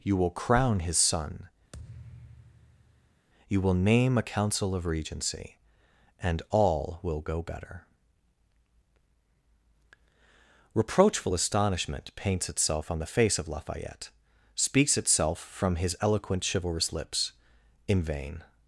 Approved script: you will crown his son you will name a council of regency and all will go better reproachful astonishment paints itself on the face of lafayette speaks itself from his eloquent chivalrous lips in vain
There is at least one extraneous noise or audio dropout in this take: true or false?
true